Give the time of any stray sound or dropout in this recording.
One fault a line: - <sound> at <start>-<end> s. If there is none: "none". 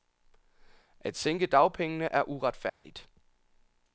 - dropout at 2.7-2.8 s